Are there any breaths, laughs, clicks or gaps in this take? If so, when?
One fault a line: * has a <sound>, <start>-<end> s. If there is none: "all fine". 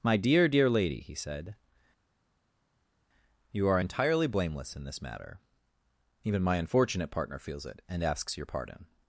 all fine